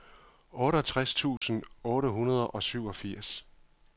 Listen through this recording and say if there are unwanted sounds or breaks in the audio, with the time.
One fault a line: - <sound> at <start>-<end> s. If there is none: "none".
- dropout at 1.4-1.4 s